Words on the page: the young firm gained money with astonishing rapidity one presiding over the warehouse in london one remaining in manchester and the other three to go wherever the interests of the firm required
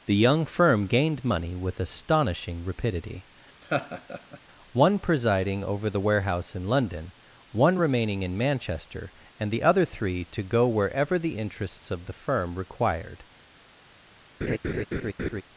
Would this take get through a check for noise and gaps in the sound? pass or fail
fail